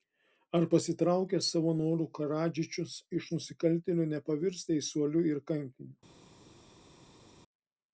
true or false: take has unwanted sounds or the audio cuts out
false